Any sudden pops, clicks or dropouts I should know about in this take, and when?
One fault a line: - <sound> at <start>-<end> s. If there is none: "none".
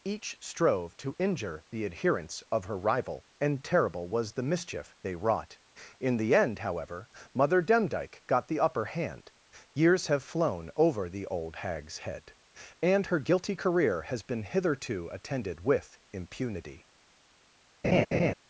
- laugh at 17.8-18.3 s